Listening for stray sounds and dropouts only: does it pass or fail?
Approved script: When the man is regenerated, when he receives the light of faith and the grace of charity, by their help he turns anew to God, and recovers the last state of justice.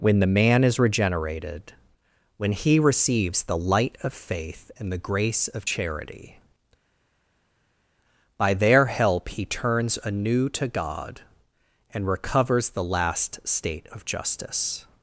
pass